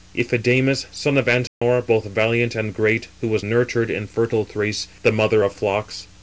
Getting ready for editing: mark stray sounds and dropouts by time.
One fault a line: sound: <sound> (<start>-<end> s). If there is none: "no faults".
sound: dropout (1.5-1.6 s)